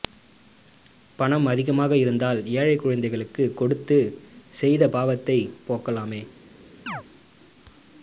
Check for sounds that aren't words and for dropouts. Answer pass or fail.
fail